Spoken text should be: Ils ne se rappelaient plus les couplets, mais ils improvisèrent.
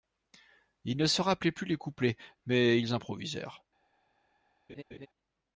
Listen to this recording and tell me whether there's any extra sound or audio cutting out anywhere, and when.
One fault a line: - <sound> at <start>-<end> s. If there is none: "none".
- laugh at 4.7-5.1 s